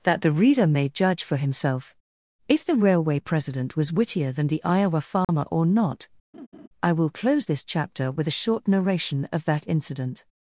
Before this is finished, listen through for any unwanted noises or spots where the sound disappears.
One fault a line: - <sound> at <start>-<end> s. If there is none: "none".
- dropout at 5.2-5.3 s
- laugh at 6.3-6.7 s